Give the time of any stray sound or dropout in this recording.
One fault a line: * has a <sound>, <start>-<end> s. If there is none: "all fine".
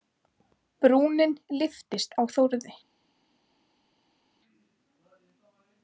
all fine